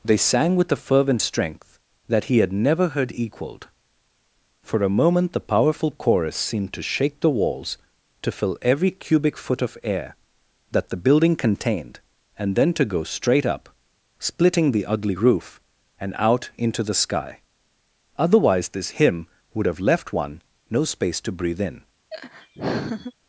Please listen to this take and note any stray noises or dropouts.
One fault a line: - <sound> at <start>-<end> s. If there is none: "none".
- laugh at 22.1-23.1 s